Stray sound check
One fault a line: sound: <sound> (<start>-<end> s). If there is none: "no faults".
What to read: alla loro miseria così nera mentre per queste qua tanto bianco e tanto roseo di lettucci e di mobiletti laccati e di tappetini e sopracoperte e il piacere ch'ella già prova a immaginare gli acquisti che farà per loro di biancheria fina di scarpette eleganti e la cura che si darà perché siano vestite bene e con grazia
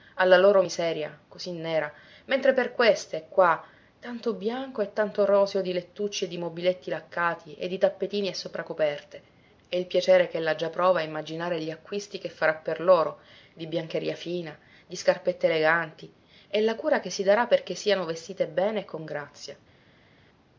no faults